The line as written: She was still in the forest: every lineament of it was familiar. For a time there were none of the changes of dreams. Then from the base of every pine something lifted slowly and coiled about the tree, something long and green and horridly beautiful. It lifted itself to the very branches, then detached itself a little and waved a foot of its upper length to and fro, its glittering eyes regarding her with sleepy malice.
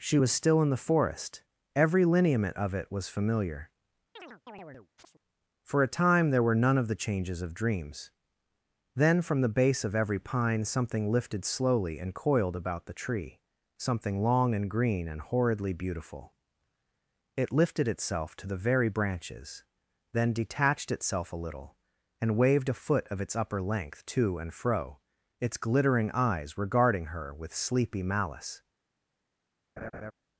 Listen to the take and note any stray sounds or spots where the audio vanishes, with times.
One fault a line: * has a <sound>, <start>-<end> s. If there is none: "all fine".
* has a chirp, 4.2-5.2 s
* has a laugh, 29.8-30.1 s